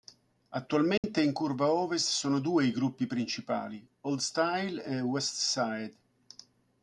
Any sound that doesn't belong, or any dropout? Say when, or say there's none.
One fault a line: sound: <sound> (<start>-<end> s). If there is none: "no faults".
sound: dropout (1.0-1.0 s)